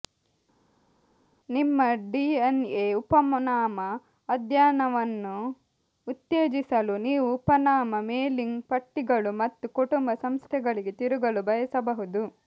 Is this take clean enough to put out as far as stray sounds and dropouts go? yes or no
yes